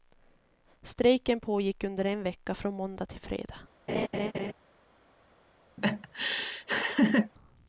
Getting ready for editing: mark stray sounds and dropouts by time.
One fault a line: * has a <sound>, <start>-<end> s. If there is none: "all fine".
* has a laugh, 3.9-4.5 s
* has a laugh, 5.8-7.3 s